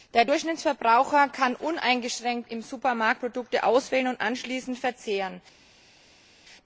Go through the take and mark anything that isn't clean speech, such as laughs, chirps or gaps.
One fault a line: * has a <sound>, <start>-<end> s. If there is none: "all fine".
all fine